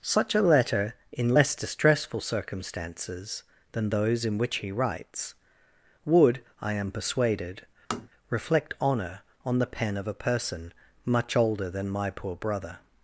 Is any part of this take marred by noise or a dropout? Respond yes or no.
yes